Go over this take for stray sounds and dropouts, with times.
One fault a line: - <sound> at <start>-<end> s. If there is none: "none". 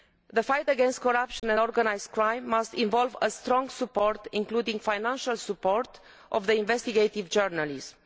- dropout at 1.4-1.4 s